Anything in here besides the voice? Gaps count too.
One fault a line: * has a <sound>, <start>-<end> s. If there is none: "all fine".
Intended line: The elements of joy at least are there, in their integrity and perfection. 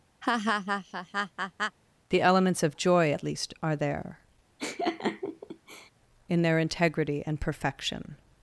* has a laugh, 0.2-1.8 s
* has a laugh, 4.6-5.9 s